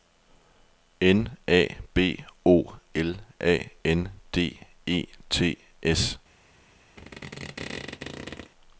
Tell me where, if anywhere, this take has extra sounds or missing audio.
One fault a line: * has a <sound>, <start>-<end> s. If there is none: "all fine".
* has a squeak, 7.0-8.5 s